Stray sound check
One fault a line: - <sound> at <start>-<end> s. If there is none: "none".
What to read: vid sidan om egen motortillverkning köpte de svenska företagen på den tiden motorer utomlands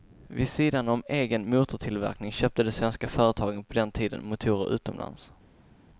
none